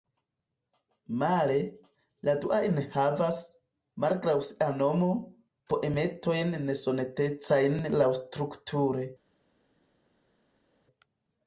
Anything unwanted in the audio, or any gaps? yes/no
no